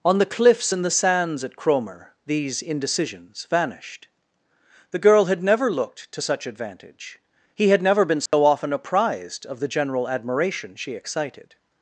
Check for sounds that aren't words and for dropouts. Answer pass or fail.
fail